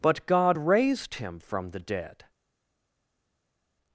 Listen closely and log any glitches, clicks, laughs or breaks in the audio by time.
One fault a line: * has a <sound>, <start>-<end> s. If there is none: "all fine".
all fine